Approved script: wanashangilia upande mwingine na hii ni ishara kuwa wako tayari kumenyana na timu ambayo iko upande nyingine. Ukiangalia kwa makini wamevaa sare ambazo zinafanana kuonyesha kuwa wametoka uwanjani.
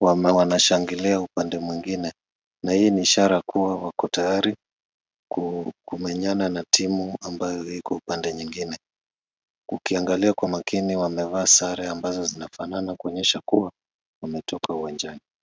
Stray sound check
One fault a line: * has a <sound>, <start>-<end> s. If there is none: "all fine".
all fine